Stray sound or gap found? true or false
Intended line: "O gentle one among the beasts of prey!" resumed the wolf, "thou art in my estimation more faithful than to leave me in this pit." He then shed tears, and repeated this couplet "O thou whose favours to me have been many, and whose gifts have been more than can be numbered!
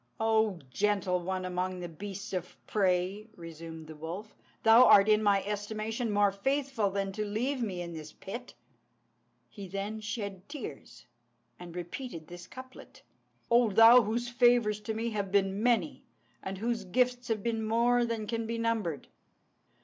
false